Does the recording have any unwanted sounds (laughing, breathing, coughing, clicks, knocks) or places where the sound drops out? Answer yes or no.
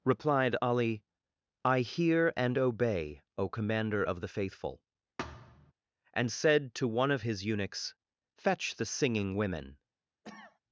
yes